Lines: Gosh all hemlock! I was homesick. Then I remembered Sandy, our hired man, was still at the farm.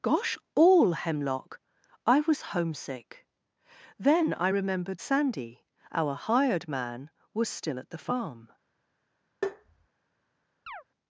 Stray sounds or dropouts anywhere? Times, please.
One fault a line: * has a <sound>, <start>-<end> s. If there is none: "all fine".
* has a tap, 9.4-9.9 s
* has a chirp, 10.7-10.8 s